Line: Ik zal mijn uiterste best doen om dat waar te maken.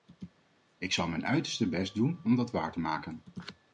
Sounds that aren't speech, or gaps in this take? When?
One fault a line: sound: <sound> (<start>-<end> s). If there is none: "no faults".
no faults